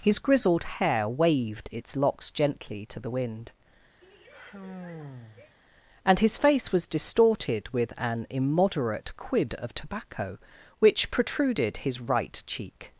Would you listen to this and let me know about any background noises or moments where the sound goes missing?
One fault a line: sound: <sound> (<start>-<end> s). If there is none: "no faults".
sound: sigh (4.0-5.6 s)